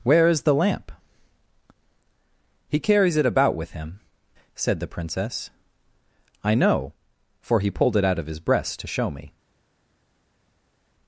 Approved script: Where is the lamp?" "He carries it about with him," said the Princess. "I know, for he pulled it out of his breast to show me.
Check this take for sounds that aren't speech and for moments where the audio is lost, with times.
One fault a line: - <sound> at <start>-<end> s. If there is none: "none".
none